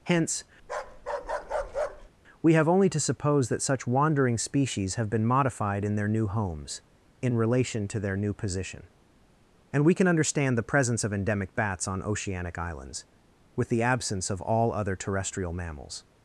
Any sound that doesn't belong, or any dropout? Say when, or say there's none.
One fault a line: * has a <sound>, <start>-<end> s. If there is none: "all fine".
* has a bark, 0.6-2.1 s